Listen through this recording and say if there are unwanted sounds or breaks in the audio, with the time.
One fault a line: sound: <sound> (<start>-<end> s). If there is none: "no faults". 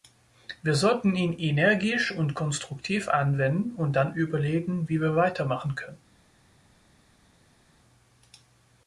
no faults